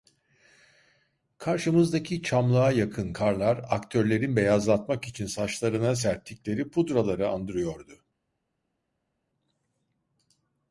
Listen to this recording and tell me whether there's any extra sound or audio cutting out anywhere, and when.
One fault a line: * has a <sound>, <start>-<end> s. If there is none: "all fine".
all fine